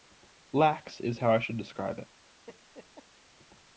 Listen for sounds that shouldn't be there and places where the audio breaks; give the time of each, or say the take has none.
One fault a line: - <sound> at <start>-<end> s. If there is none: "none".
- laugh at 2.5-3.1 s